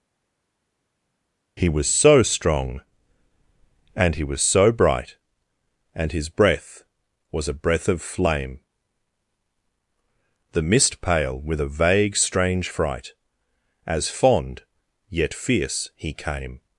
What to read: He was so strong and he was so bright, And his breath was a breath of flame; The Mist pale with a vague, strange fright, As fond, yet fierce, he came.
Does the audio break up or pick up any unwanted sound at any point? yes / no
no